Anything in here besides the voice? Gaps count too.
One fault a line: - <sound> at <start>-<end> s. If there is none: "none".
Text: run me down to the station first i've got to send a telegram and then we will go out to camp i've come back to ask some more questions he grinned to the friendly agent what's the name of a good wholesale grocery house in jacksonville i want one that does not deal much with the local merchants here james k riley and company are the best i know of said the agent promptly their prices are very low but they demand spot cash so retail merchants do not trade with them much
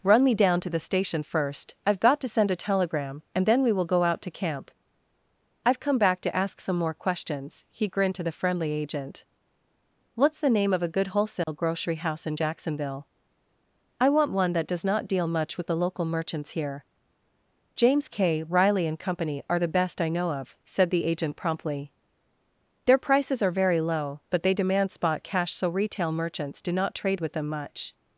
- dropout at 11.4-11.5 s